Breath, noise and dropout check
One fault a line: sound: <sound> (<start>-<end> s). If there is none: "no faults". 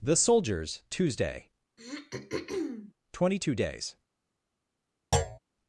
sound: throat clearing (1.8-2.9 s)
sound: thud (5.1-5.4 s)